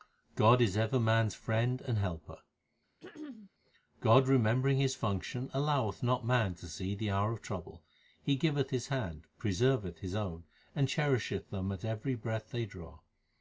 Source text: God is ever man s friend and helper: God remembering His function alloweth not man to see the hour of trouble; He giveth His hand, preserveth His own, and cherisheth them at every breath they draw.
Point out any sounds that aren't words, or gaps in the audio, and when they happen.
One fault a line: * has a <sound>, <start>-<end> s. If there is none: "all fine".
* has a throat clearing, 3.0-3.5 s